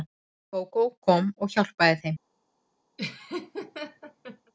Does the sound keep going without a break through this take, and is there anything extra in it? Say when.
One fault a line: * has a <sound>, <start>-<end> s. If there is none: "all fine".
* has a laugh, 3.0-4.5 s